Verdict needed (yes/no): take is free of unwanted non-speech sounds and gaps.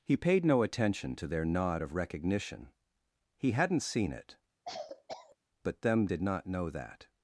no